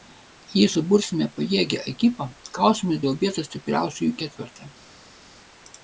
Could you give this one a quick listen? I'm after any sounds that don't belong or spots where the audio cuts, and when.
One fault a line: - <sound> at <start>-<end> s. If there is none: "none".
none